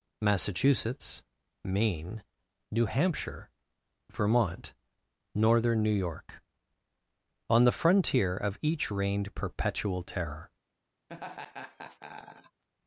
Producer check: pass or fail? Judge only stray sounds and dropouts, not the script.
fail